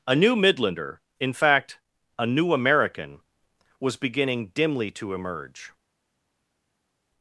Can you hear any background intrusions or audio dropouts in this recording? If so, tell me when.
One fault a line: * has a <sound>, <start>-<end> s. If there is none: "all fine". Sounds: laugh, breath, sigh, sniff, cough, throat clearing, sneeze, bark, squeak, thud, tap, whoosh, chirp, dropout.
all fine